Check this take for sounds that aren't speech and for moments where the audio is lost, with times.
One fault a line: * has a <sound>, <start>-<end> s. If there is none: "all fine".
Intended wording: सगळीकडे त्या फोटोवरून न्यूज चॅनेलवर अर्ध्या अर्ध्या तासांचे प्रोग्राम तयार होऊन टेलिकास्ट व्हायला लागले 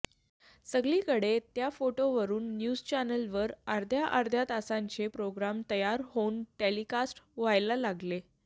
all fine